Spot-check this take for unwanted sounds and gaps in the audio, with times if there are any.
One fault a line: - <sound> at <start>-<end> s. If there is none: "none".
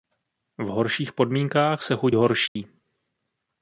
- dropout at 2.5-2.6 s